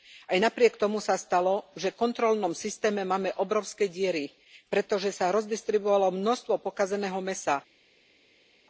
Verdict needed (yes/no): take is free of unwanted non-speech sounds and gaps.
yes